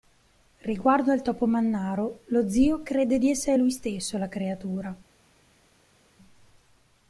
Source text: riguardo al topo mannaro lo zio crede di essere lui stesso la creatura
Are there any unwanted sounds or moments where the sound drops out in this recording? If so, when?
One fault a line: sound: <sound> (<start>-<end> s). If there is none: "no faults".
no faults